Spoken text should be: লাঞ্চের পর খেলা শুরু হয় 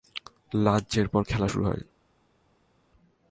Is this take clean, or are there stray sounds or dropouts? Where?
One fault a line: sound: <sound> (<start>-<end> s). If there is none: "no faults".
no faults